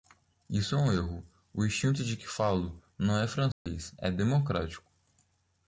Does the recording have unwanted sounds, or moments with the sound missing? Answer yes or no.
yes